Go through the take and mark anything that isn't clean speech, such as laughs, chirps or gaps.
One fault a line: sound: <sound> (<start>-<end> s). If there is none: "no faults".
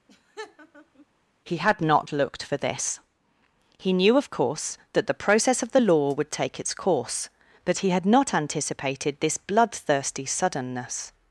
sound: laugh (0.1-1.1 s)